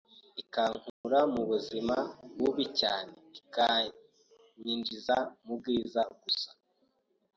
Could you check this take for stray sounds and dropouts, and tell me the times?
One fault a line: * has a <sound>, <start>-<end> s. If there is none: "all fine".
* has a dropout, 0.9-1.0 s